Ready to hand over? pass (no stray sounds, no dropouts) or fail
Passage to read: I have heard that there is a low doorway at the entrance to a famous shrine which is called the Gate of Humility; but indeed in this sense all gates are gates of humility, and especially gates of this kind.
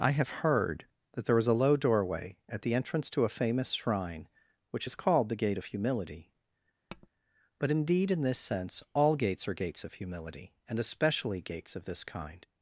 fail